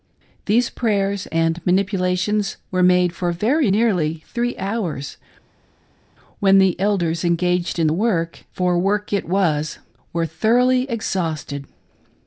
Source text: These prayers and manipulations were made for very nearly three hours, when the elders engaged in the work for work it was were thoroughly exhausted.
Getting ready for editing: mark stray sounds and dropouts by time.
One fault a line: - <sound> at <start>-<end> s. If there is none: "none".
none